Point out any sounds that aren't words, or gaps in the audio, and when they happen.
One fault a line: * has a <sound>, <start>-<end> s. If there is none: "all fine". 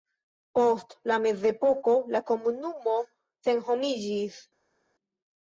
all fine